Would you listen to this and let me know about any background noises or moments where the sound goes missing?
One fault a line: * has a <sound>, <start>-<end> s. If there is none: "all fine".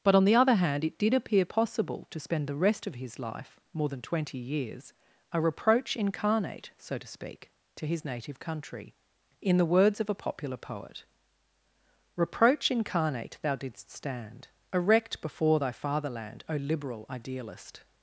all fine